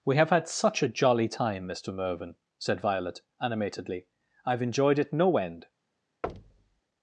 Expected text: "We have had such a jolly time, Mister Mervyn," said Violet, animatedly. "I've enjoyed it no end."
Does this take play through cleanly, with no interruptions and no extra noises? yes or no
no